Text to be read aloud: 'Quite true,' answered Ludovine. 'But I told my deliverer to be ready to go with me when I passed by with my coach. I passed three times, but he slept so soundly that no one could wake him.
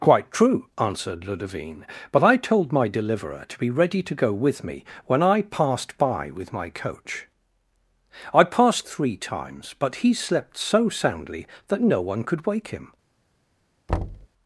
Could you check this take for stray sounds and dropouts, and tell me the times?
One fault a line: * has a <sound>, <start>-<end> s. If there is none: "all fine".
* has a thud, 13.9-14.3 s